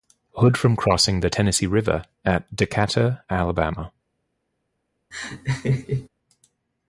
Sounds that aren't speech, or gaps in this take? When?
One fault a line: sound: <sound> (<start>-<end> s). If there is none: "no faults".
sound: laugh (5.1-6.1 s)